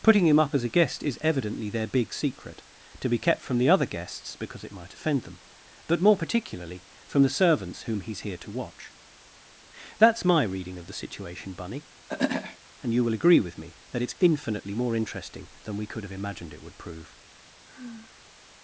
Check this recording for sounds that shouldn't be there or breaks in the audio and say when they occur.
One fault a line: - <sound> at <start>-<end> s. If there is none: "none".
- throat clearing at 12.1-12.6 s
- sigh at 17.7-18.4 s